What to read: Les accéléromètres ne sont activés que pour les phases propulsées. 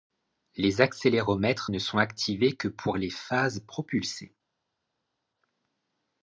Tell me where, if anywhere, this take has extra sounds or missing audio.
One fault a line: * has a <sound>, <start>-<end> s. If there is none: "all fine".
all fine